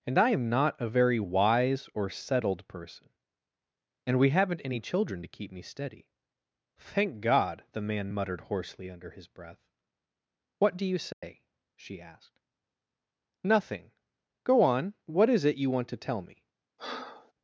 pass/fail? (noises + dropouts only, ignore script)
fail